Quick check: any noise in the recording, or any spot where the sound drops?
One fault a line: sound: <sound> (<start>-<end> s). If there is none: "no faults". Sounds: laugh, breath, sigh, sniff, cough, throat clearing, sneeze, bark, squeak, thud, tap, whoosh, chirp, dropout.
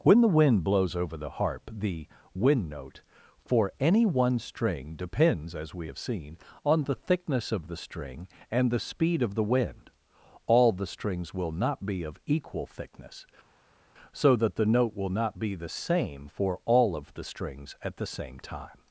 no faults